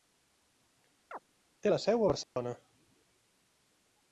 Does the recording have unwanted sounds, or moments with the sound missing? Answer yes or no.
yes